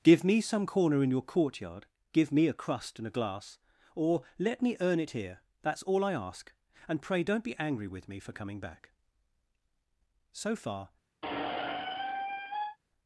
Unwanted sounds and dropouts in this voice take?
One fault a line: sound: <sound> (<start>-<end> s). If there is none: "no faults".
sound: squeak (11.2-12.8 s)